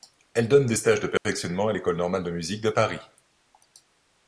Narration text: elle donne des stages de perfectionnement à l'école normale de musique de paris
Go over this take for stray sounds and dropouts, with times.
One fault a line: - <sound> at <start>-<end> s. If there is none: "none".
- dropout at 1.2-1.3 s